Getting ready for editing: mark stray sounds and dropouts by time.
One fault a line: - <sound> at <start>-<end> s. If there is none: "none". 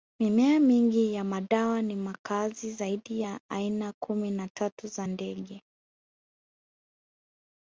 none